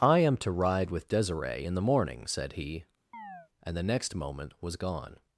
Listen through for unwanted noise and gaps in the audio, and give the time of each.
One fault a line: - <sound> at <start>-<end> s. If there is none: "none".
- chirp at 3.1-3.5 s